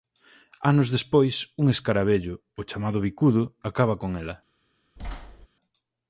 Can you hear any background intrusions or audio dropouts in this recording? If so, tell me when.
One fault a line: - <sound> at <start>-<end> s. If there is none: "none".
- thud at 5.0-5.5 s